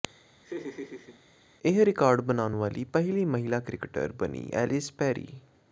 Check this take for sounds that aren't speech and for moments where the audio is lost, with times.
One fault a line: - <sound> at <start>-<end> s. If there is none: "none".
- laugh at 0.4-1.2 s